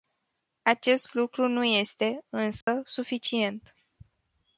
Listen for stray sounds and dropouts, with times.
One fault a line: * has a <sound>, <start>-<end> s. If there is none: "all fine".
* has a dropout, 2.6-2.7 s